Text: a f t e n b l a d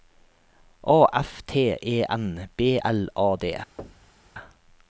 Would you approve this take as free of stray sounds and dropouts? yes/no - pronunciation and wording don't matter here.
no